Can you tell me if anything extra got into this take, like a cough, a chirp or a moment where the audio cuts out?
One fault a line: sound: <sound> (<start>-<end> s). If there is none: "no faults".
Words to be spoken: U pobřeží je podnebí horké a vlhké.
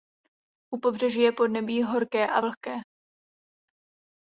no faults